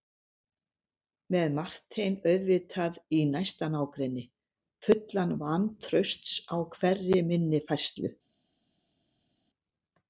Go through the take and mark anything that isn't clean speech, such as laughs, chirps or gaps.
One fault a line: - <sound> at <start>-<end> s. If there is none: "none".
none